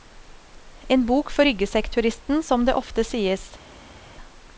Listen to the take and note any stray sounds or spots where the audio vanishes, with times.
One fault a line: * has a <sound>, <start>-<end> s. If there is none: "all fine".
all fine